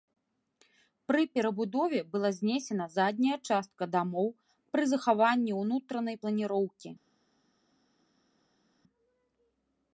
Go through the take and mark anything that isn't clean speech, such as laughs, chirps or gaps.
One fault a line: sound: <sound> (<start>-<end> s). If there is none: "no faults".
no faults